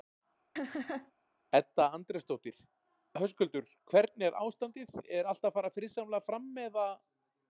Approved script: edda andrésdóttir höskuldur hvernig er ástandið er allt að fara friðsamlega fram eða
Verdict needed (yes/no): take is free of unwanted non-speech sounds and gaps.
no